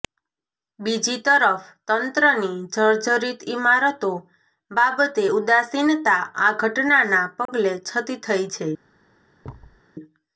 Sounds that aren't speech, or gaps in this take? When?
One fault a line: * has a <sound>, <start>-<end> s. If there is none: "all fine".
* has a dropout, 7.5-7.5 s
* has a thud, 9.4-9.8 s